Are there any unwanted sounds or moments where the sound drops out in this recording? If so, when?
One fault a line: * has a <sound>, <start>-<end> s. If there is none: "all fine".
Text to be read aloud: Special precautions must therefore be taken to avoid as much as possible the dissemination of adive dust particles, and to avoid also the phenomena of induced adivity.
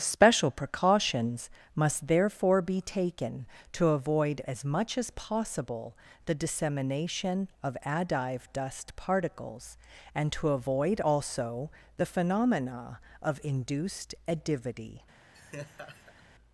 * has a laugh, 15.3-16.2 s